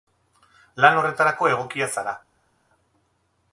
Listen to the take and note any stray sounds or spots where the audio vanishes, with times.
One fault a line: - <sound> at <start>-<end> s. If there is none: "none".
none